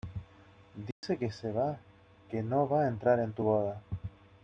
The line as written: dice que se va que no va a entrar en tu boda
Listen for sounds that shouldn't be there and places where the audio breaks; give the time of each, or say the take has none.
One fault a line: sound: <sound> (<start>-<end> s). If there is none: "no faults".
sound: dropout (0.9-1.0 s)